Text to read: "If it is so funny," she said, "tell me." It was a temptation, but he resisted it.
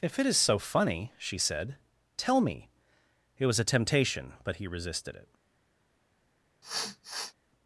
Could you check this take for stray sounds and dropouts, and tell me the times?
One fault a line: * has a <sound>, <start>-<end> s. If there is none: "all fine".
* has a sniff, 6.6-7.3 s